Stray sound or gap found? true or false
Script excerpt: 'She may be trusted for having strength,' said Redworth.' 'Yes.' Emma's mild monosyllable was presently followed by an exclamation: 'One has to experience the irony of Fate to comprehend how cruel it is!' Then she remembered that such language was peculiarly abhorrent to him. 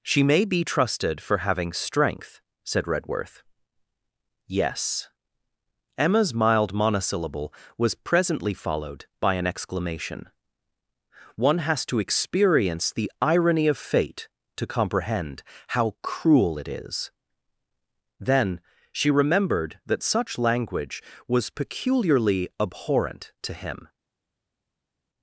false